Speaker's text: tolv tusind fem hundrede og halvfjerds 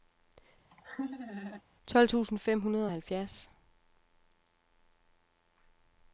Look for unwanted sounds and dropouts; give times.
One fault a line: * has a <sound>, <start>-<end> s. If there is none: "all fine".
* has a laugh, 0.7-1.6 s